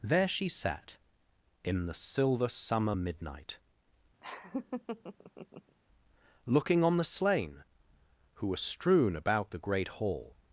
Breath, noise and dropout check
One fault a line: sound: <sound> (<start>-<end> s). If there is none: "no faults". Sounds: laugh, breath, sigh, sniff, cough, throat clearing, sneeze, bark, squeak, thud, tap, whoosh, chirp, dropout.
sound: laugh (4.2-5.8 s)